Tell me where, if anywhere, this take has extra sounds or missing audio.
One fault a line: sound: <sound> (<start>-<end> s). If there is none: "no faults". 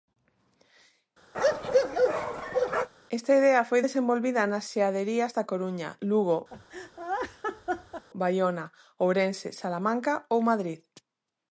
sound: bark (1.3-2.9 s)
sound: laugh (6.5-8.0 s)